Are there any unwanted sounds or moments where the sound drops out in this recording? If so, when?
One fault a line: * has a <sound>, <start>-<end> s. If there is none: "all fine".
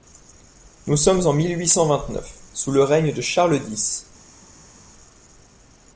all fine